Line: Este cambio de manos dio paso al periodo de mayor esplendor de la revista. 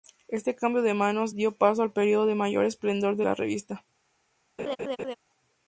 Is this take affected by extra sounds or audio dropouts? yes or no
yes